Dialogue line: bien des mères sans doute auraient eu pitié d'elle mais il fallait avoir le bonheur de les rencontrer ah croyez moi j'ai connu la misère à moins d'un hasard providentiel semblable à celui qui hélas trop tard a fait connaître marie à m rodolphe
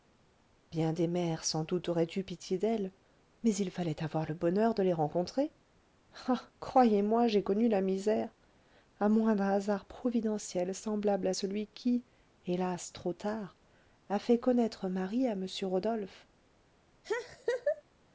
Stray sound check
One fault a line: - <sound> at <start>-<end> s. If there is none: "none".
- laugh at 17.0-17.8 s